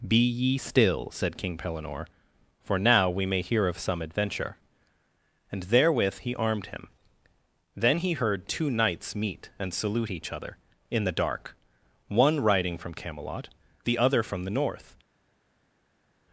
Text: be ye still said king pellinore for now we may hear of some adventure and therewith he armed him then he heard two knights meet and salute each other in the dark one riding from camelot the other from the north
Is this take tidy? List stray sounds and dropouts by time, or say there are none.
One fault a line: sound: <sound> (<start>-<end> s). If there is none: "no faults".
no faults